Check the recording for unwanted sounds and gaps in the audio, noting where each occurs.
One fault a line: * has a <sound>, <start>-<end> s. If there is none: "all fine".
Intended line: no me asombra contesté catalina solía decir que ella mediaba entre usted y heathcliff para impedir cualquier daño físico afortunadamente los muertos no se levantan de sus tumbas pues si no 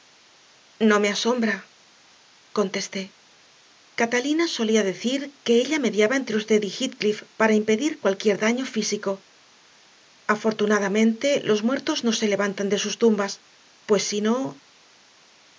all fine